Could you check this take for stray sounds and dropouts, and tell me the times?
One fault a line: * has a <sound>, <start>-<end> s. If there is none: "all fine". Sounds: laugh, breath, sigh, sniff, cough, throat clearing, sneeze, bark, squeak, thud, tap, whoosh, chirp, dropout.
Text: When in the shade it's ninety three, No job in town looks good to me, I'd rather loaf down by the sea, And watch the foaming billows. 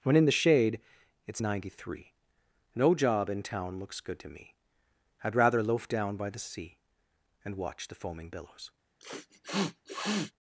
* has a sniff, 9.0-10.3 s